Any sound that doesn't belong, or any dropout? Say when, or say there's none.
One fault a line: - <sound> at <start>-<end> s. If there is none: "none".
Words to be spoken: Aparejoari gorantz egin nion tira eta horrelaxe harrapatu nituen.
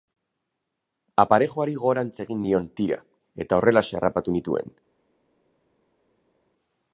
none